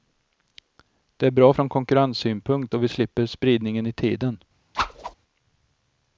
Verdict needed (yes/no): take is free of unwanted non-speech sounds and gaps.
no